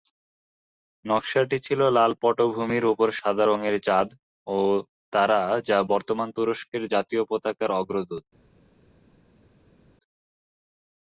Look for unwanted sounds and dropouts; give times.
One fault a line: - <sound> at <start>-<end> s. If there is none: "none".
none